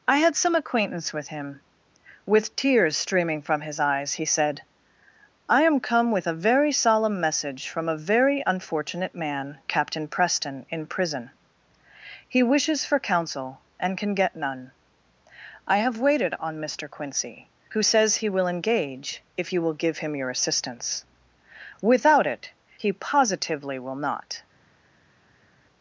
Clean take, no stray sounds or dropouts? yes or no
yes